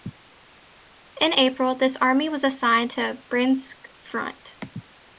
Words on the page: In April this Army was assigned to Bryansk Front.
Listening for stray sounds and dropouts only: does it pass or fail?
pass